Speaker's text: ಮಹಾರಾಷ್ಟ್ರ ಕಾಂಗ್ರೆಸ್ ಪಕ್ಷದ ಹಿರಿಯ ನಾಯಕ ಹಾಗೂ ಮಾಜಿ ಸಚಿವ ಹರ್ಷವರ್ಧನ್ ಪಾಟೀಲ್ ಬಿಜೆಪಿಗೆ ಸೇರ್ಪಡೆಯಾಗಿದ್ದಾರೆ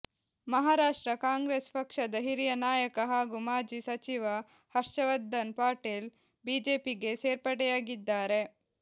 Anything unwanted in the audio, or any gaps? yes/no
no